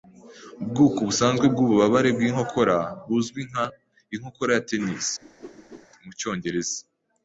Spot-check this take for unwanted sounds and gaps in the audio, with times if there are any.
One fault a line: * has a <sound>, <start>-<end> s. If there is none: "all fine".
* has a whoosh, 5.2-5.9 s